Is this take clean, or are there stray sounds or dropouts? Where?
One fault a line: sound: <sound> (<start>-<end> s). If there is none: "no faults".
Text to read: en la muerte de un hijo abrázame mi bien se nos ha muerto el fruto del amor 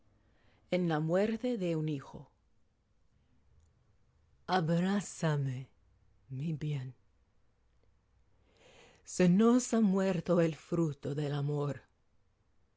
no faults